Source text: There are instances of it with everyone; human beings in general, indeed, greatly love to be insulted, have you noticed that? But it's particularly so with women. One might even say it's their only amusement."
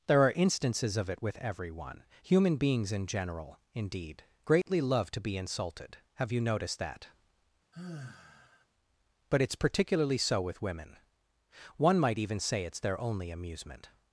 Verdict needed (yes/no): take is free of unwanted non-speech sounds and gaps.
no